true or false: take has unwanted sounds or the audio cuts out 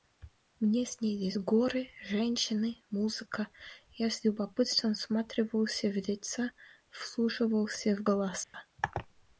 true